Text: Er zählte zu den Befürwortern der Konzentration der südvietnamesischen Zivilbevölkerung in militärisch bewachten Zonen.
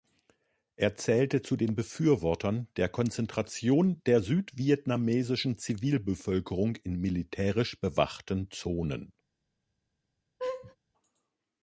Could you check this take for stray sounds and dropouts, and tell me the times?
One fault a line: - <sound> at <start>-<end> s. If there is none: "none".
- laugh at 10.4-10.8 s